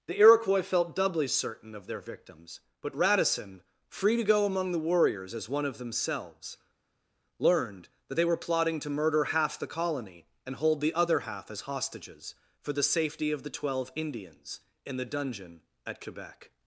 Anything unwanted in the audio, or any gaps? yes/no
no